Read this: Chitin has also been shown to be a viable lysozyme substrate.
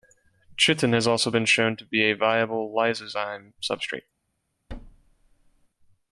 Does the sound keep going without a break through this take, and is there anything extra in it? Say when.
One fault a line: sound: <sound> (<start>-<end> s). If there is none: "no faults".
sound: thud (4.7-5.7 s)